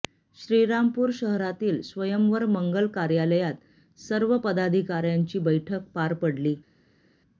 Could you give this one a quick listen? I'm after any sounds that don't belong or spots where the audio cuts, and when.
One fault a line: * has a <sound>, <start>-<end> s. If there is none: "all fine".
all fine